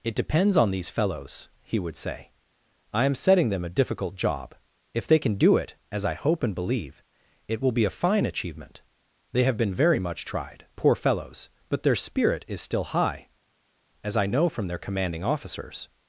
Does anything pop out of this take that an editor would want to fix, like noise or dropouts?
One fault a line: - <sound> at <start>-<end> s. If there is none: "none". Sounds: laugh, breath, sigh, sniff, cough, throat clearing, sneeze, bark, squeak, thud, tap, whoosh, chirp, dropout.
none